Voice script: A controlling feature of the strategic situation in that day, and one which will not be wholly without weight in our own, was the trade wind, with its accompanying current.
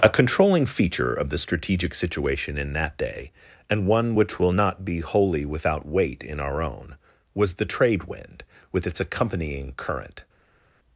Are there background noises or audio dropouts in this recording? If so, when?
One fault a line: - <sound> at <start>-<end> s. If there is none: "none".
none